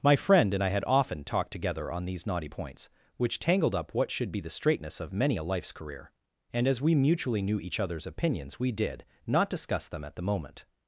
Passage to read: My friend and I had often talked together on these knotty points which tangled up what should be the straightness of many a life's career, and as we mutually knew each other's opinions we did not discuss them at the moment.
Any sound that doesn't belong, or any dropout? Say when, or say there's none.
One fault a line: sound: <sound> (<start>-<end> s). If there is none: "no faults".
no faults